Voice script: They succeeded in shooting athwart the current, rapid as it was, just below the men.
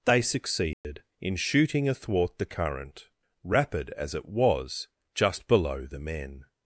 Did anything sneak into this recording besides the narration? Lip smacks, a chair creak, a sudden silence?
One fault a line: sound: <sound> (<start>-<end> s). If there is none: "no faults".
sound: dropout (0.7-0.8 s)